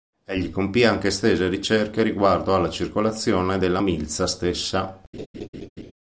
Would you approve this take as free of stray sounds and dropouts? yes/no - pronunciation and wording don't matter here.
no